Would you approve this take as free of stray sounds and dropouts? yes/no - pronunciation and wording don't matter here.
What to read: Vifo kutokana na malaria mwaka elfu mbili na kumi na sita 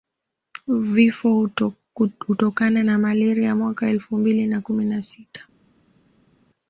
yes